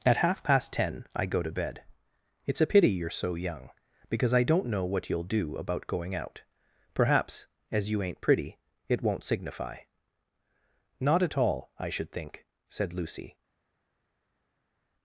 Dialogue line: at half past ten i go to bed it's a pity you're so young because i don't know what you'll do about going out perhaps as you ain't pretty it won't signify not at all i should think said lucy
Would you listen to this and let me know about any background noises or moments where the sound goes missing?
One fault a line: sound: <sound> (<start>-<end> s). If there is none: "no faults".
no faults